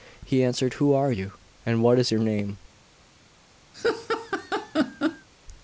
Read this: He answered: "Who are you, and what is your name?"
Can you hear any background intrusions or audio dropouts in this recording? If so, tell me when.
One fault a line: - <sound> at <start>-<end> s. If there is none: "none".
- laugh at 3.7-5.3 s